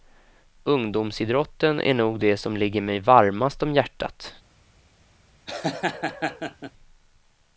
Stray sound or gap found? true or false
true